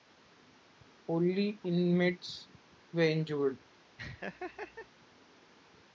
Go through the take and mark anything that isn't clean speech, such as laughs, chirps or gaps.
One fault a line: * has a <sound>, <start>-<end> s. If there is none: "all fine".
* has a laugh, 4.0-4.9 s